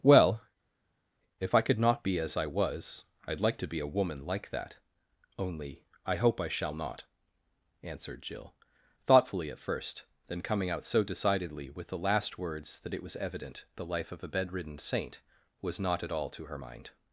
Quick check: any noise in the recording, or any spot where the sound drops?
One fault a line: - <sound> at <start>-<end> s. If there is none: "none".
none